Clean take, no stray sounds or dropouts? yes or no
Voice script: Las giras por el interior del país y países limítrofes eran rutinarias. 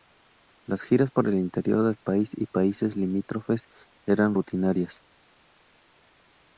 yes